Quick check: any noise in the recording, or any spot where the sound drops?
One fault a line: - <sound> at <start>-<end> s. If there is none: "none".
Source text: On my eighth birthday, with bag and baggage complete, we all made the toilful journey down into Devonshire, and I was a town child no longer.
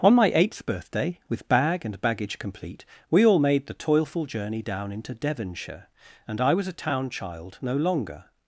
none